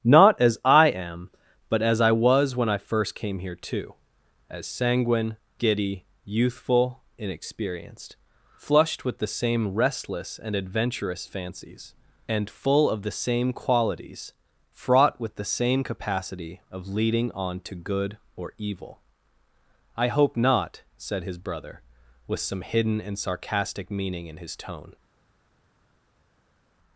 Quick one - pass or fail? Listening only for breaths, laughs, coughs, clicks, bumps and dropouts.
pass